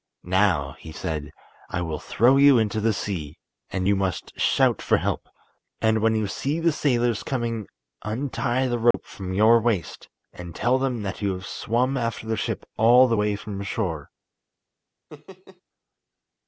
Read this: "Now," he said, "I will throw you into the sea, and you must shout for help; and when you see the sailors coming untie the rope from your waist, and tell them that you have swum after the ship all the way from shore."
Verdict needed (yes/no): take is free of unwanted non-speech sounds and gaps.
no